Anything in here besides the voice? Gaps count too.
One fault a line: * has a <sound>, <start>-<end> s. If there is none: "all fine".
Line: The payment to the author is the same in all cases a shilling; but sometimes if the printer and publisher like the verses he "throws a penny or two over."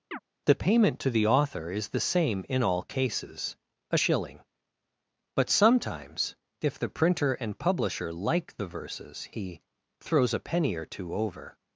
* has a chirp, 0.1-0.2 s